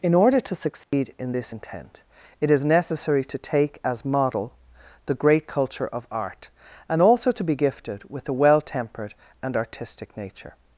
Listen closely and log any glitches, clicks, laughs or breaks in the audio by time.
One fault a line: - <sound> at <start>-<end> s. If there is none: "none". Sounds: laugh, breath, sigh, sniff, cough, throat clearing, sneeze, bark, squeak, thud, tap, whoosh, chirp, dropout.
- dropout at 0.8-0.9 s